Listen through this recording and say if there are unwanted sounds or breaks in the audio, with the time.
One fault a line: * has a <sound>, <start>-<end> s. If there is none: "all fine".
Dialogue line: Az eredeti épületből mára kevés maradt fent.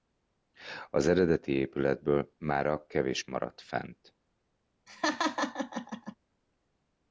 * has a laugh, 4.9-6.2 s